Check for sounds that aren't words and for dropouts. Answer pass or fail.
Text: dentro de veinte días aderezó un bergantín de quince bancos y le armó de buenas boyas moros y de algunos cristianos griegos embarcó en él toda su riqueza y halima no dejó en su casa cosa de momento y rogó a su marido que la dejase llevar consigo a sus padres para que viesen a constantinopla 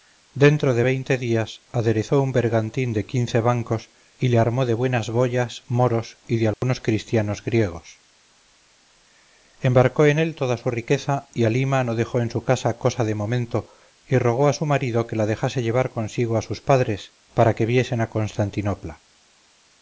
fail